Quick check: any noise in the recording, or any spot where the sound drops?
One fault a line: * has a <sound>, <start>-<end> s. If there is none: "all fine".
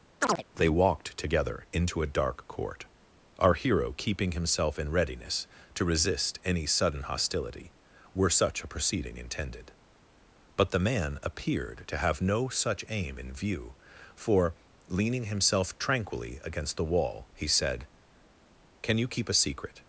* has a chirp, 0.2-0.4 s